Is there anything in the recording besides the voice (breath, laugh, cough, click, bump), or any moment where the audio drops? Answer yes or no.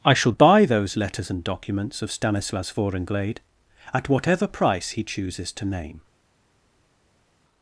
no